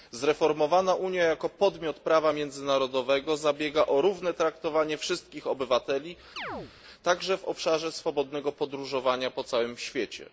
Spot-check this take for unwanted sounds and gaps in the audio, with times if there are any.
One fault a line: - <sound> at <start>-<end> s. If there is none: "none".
- chirp at 6.4-6.7 s